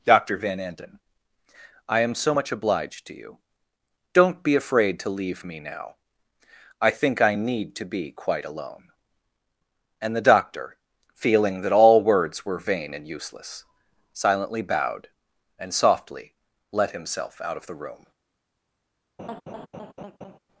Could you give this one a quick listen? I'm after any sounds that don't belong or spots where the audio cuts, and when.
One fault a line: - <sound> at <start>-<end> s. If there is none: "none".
- laugh at 19.2-20.4 s